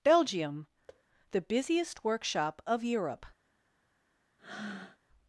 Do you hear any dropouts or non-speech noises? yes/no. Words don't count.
yes